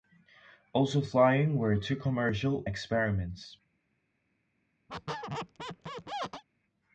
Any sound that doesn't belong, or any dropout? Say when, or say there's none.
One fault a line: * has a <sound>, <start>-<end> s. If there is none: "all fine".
* has a squeak, 4.9-6.4 s